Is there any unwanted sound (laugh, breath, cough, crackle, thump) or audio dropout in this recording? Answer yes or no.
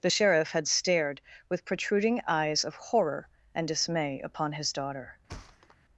yes